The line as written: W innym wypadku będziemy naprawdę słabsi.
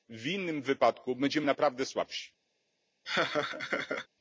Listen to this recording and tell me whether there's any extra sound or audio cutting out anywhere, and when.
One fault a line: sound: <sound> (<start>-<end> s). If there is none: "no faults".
sound: laugh (3.0-4.1 s)